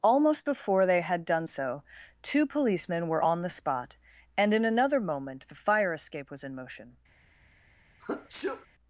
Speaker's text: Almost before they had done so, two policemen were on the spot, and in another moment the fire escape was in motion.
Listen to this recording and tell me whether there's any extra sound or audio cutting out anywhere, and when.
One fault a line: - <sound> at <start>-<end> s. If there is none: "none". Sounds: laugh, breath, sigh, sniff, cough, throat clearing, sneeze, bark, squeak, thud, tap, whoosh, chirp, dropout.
- sneeze at 8.0-8.7 s